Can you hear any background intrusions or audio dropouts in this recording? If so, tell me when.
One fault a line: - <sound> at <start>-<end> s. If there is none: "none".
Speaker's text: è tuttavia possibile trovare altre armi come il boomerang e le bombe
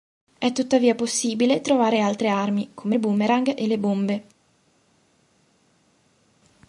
none